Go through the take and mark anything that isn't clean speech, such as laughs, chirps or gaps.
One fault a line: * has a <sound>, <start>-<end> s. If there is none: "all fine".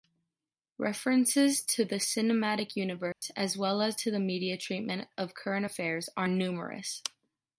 * has a dropout, 3.1-3.2 s